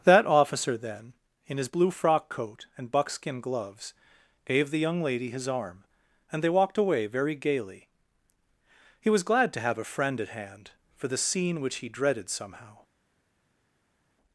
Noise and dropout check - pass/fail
pass